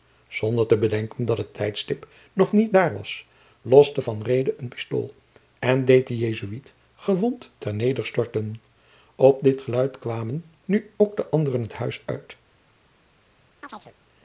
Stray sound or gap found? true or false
true